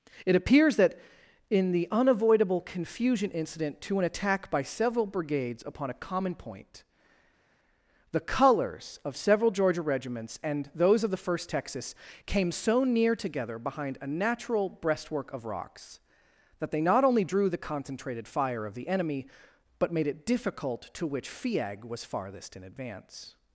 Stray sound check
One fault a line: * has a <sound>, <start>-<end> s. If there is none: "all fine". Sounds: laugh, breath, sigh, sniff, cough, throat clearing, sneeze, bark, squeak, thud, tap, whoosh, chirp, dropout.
all fine